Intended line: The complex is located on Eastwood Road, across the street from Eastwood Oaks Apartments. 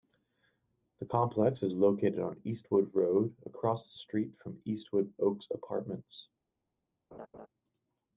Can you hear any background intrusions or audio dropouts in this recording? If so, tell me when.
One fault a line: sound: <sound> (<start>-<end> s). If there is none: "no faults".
sound: laugh (7.1-7.5 s)